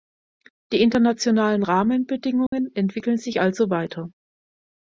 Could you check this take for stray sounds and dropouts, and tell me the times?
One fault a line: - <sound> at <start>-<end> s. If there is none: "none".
- dropout at 2.5-2.5 s